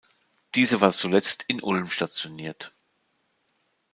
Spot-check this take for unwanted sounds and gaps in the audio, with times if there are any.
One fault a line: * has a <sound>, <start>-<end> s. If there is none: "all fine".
all fine